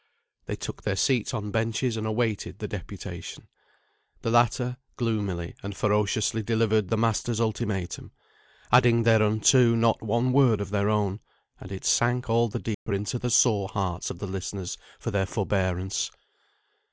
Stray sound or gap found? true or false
true